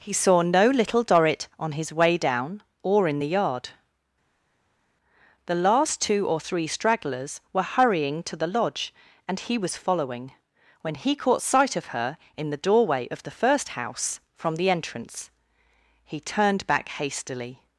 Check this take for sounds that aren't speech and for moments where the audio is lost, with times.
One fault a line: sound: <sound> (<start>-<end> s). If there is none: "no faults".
no faults